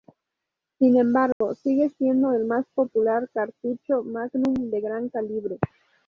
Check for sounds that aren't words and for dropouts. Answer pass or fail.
fail